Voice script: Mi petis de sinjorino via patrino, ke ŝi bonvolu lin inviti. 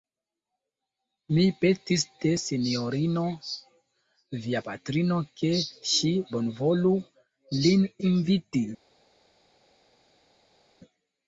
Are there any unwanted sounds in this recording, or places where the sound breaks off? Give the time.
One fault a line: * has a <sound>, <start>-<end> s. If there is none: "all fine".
all fine